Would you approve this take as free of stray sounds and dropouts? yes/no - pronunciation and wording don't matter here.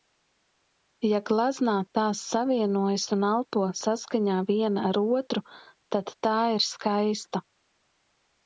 no